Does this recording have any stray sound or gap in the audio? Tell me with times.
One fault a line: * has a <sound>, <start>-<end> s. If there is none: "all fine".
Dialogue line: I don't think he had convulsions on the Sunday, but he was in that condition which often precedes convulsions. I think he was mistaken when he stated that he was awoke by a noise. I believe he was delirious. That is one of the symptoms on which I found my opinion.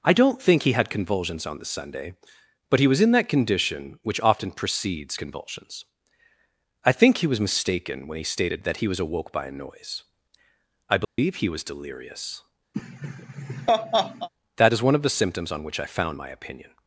* has a dropout, 11.0-11.2 s
* has a laugh, 12.7-14.3 s